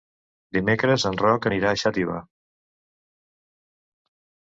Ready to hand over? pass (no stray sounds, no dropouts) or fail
pass